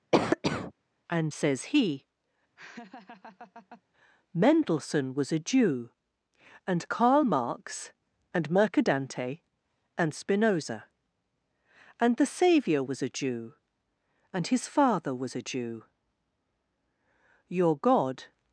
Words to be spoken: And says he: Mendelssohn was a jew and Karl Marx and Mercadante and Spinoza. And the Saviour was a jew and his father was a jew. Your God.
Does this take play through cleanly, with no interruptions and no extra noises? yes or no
no